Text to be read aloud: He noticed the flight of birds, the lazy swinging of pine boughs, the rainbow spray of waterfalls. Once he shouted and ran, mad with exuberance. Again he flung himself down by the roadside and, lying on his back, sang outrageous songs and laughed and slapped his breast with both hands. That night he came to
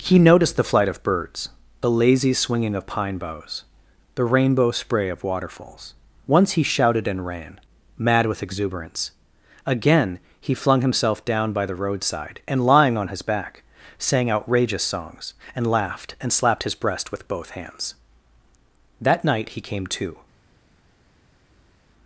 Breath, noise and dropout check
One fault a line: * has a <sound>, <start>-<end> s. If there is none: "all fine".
all fine